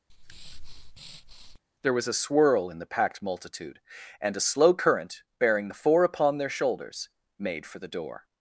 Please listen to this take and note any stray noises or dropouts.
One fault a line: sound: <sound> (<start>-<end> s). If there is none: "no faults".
sound: breath (0.1-1.6 s)